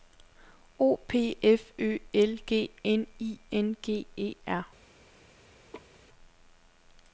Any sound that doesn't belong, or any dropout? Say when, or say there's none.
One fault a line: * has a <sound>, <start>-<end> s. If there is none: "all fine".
* has a laugh, 5.7-6.0 s